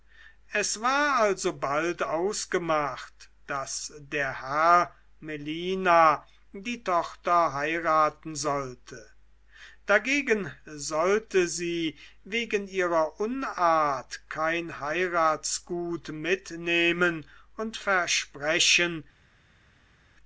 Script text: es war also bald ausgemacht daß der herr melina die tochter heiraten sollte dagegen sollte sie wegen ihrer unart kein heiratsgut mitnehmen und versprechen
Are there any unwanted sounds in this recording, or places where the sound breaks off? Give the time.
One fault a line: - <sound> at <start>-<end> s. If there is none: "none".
none